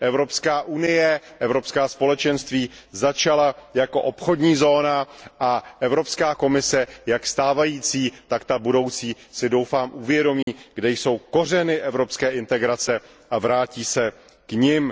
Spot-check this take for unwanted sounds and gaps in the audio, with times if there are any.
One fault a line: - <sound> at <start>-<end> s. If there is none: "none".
- dropout at 10.4-10.5 s